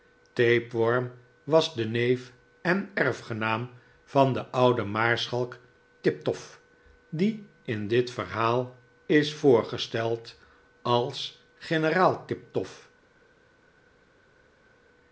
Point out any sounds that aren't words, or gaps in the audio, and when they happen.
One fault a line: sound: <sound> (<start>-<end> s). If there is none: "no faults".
no faults